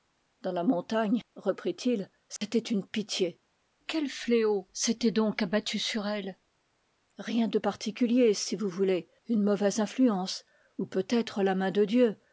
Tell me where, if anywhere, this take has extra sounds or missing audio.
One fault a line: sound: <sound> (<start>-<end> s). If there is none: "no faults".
sound: dropout (2.4-2.4 s)